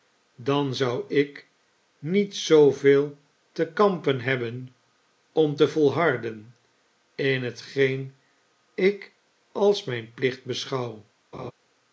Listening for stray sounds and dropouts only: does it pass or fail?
fail